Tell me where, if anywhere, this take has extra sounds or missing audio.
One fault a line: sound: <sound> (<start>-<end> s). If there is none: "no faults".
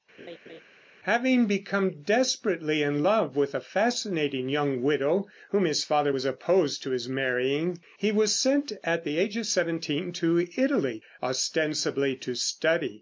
sound: laugh (0.2-0.6 s)